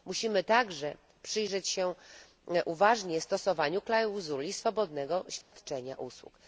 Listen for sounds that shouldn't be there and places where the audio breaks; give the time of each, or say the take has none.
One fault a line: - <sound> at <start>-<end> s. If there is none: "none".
- dropout at 5.4-5.5 s